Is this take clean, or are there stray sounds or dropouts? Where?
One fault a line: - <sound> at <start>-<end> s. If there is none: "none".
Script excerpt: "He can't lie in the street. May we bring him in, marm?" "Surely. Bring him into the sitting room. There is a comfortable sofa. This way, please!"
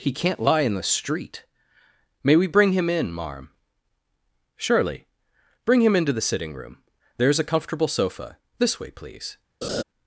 - laugh at 9.6-9.8 s